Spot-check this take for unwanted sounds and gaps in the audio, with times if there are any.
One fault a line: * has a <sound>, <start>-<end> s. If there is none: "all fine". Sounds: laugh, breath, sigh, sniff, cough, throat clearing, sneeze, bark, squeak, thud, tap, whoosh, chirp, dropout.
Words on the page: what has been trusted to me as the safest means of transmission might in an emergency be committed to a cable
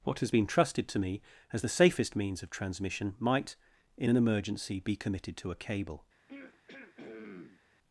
* has a throat clearing, 6.3-7.6 s